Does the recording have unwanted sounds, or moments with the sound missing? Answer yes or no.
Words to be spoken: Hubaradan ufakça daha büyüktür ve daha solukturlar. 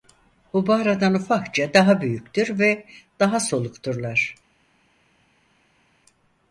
no